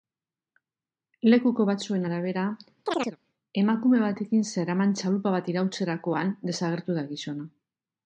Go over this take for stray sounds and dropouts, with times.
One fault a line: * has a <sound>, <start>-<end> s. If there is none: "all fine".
* has a chirp, 2.9-3.2 s